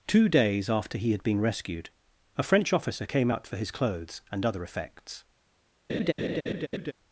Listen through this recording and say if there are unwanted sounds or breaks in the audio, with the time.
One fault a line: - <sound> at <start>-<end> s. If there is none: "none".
- laugh at 5.9-6.9 s